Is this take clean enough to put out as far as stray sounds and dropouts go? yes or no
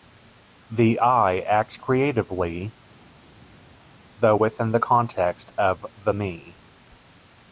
yes